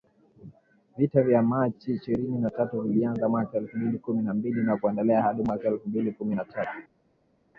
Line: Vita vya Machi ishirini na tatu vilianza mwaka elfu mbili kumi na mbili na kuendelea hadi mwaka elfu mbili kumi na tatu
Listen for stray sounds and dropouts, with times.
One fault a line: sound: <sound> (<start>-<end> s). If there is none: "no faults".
no faults